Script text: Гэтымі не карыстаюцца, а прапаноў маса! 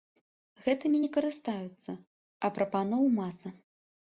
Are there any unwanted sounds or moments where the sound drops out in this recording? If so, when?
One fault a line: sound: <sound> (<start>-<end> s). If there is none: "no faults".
no faults